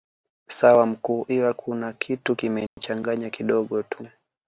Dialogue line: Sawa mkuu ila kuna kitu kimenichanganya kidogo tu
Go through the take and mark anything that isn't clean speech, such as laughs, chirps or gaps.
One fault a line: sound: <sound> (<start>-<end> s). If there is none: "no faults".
sound: dropout (2.7-2.8 s)